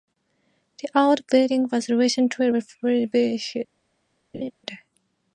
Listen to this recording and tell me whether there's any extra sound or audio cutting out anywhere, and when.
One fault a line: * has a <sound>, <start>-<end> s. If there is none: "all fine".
* has a laugh, 4.3-4.5 s